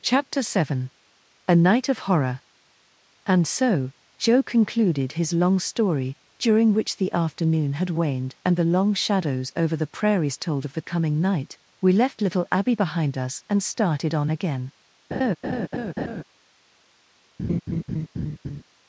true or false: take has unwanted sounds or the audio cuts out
true